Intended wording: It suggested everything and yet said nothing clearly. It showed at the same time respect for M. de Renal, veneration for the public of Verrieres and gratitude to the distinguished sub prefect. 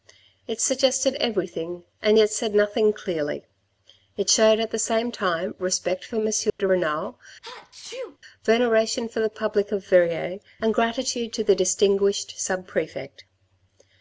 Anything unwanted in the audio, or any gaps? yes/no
yes